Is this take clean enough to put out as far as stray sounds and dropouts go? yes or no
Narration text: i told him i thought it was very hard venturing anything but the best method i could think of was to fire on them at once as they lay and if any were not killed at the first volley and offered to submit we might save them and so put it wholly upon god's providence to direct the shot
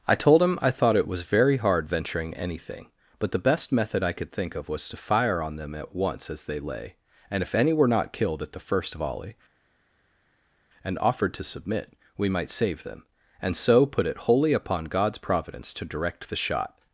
yes